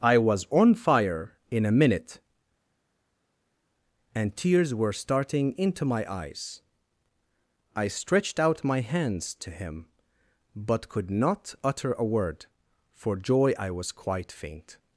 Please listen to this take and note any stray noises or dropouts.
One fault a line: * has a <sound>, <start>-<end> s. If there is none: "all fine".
all fine